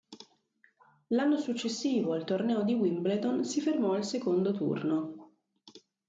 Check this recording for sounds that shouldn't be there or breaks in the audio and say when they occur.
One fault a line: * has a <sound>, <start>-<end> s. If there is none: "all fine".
all fine